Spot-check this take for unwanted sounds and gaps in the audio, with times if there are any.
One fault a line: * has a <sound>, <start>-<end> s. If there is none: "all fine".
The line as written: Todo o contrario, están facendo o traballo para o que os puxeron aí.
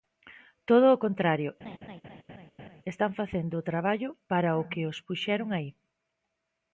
* has a laugh, 1.6-2.8 s